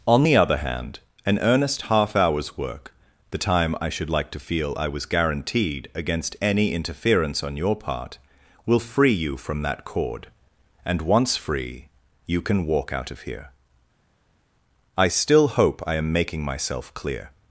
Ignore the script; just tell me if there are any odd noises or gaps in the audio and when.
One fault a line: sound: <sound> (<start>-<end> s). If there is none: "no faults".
no faults